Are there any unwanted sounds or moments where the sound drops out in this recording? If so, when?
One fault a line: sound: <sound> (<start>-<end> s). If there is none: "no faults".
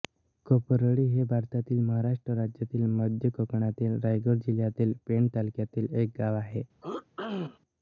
sound: throat clearing (6.8-7.6 s)